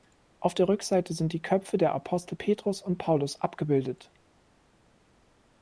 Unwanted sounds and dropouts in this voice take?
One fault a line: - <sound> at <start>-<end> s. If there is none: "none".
none